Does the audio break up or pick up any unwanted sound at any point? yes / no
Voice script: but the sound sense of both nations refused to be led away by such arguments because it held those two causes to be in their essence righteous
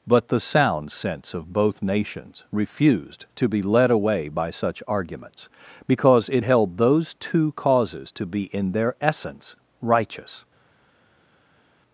no